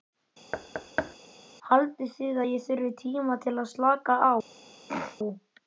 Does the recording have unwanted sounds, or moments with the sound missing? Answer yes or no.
yes